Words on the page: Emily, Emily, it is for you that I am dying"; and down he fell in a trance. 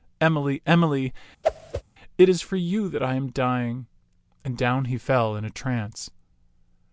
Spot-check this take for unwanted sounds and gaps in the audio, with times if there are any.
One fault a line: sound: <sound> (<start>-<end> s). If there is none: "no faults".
sound: whoosh (1.4-1.8 s)